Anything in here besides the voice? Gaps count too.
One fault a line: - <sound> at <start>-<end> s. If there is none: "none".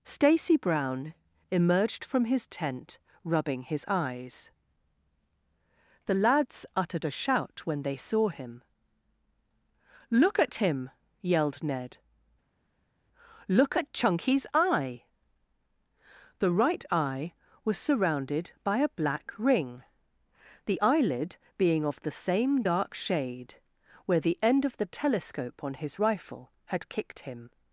none